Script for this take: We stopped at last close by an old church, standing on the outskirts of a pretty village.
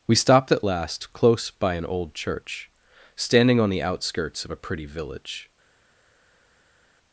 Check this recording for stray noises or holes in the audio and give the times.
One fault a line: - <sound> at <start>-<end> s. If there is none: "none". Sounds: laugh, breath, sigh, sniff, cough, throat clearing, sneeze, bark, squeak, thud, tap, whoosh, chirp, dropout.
none